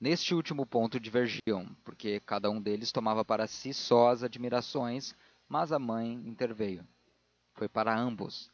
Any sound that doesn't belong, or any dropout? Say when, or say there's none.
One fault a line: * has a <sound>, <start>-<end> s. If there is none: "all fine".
* has a dropout, 1.4-1.5 s